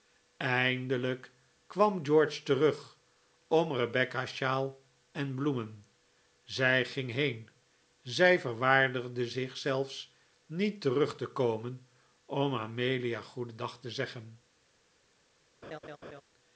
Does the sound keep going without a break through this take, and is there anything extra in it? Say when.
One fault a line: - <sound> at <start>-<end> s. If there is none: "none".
- laugh at 15.6-16.2 s